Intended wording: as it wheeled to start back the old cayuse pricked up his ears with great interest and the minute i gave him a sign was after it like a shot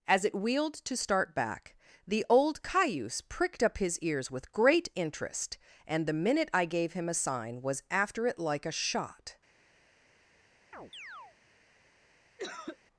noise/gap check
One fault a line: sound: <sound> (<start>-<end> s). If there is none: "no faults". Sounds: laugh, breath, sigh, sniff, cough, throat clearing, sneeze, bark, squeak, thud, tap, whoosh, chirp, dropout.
sound: chirp (10.7-11.4 s)
sound: cough (12.4-12.8 s)